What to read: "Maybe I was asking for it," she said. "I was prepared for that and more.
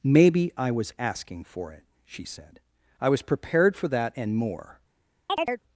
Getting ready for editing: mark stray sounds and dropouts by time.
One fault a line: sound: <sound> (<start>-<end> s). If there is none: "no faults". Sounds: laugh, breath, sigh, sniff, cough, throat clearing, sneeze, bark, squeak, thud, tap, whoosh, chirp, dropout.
sound: chirp (5.3-5.6 s)